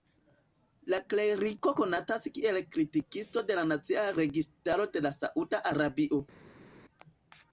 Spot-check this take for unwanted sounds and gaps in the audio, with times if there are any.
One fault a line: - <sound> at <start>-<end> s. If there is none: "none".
none